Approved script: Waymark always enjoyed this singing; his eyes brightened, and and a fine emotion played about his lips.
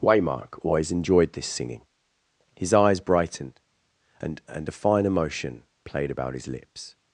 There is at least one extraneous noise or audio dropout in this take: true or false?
false